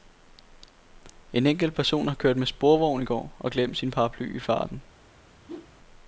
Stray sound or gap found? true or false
true